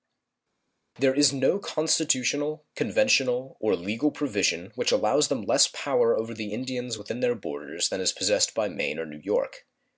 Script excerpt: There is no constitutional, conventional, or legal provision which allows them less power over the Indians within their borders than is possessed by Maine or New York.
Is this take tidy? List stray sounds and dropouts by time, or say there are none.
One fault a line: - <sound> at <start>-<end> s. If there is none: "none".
none